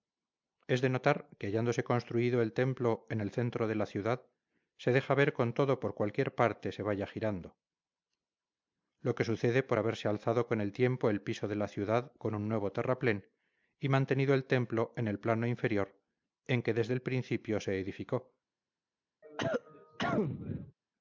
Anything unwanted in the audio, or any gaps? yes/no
yes